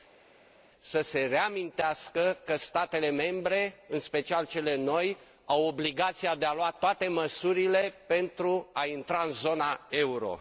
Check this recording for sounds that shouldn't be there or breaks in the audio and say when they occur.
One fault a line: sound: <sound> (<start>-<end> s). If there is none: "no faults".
no faults